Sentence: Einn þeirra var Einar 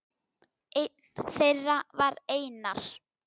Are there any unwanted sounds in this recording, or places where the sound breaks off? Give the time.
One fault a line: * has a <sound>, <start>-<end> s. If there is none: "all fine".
all fine